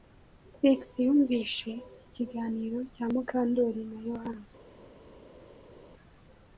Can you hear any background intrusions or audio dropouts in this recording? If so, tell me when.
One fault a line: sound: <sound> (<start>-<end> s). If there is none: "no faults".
no faults